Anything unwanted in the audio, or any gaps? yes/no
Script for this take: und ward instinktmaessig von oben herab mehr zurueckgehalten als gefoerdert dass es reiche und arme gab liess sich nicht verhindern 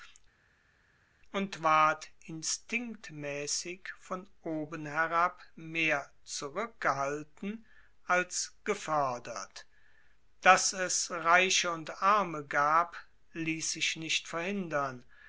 no